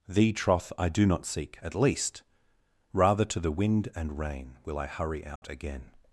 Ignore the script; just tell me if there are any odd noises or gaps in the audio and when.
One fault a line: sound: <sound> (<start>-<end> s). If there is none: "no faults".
sound: dropout (5.4-5.4 s)